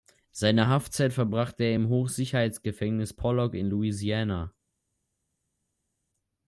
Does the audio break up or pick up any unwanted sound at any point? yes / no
no